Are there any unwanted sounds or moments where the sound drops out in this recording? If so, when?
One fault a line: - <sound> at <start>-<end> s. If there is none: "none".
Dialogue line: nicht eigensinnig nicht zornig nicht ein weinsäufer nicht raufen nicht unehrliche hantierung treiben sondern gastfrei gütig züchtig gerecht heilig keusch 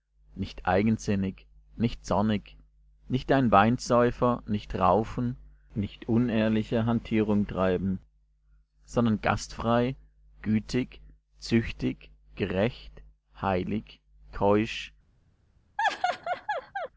- laugh at 15.8-16.9 s